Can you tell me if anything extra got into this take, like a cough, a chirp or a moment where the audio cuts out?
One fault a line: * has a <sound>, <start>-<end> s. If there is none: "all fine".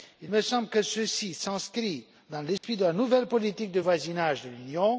* has a dropout, 2.6-2.6 s